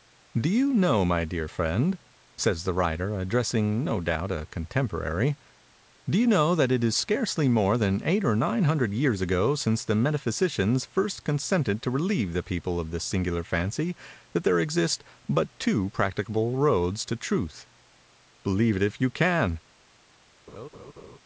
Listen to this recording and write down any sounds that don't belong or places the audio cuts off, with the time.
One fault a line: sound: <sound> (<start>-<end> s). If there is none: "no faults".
sound: laugh (20.5-21.2 s)